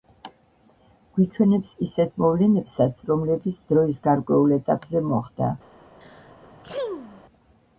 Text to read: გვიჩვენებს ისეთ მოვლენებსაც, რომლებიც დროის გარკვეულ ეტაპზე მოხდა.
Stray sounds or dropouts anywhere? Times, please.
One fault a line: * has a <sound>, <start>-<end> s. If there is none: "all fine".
* has a sneeze, 6.0-7.2 s